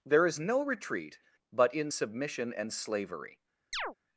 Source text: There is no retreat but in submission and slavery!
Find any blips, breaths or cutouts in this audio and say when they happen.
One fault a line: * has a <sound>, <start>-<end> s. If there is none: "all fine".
* has a chirp, 3.7-3.9 s